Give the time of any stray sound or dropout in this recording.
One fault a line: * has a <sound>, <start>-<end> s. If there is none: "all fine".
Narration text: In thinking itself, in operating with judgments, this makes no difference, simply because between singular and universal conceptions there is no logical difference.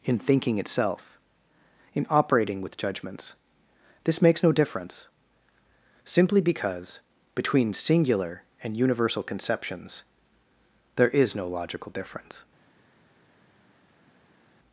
all fine